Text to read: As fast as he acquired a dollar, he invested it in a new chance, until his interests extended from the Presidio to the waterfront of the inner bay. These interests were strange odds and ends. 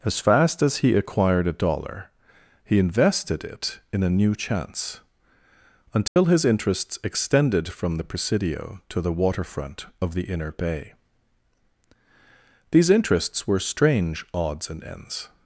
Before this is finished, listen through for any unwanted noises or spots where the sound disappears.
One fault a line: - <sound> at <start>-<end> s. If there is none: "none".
- dropout at 6.1-6.2 s